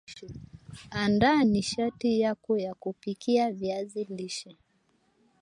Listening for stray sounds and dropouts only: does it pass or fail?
pass